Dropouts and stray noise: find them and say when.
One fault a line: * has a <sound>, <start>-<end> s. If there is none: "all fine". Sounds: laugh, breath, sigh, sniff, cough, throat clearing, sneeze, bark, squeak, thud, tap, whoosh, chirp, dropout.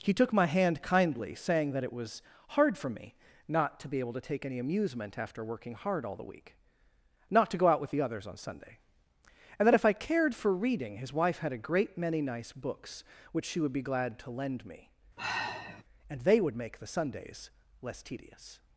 * has a sigh, 15.2-15.8 s